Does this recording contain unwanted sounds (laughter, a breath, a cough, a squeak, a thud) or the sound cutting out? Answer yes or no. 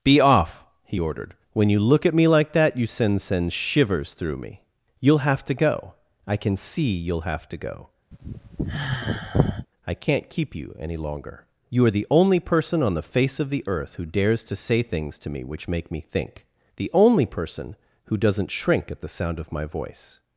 yes